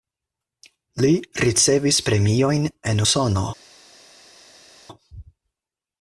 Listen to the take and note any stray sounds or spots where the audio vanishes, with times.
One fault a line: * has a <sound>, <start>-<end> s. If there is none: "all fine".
all fine